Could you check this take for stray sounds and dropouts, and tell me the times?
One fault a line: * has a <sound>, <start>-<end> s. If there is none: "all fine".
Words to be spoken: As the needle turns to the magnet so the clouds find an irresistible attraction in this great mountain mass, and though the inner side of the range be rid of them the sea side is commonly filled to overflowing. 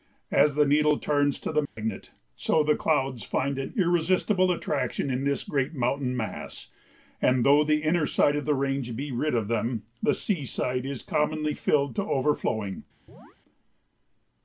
* has a dropout, 1.7-1.8 s
* has a chirp, 13.1-13.4 s